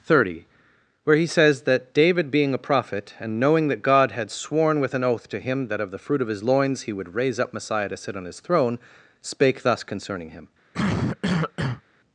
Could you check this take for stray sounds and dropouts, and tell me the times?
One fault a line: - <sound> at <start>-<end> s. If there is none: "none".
- cough at 10.7-11.8 s